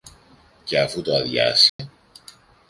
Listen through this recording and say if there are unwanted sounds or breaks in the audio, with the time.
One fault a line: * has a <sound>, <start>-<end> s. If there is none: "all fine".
* has a dropout, 1.7-1.8 s